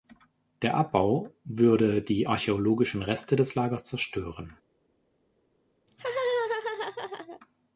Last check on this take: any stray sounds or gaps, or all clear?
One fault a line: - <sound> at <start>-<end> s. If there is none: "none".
- laugh at 5.9-7.4 s